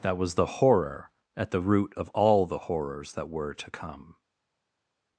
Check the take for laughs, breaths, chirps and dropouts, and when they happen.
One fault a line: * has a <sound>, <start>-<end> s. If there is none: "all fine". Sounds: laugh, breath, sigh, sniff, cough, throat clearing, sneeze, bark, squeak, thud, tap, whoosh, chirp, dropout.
all fine